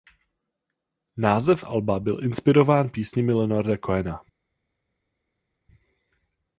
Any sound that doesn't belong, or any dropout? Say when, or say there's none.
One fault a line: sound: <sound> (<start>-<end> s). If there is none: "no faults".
no faults